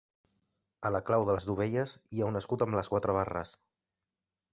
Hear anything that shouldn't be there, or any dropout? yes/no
no